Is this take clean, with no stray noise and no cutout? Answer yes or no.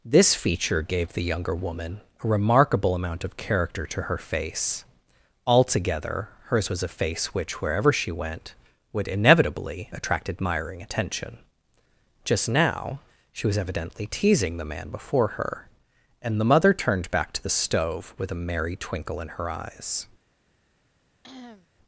no